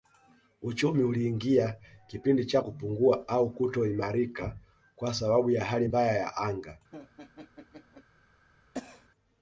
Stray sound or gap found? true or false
true